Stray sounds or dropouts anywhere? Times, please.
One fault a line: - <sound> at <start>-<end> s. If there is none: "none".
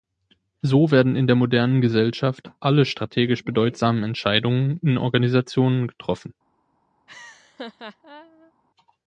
- laugh at 7.1-8.5 s